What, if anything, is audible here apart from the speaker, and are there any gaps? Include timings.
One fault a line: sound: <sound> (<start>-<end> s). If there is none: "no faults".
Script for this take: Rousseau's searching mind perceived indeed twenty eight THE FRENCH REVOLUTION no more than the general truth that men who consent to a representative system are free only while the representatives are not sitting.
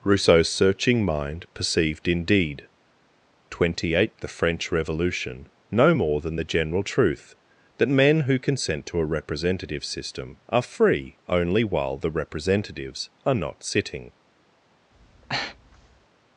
sound: breath (14.9-16.1 s)